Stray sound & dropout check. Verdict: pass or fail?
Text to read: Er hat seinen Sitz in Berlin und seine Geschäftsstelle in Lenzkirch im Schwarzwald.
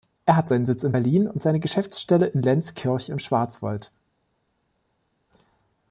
pass